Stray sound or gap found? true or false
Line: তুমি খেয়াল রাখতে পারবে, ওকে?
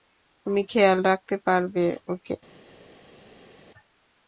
false